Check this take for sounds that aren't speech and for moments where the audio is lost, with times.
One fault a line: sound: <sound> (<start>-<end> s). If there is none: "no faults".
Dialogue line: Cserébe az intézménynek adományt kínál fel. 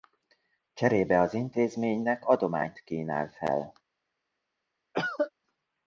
sound: cough (4.9-5.3 s)